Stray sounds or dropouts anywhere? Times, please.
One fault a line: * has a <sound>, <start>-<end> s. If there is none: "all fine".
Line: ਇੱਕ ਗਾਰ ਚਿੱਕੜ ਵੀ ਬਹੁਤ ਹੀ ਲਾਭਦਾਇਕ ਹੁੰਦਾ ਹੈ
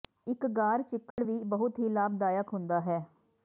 * has a dropout, 1.1-1.2 s